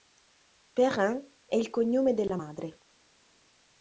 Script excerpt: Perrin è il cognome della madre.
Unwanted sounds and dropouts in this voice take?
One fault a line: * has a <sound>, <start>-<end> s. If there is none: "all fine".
all fine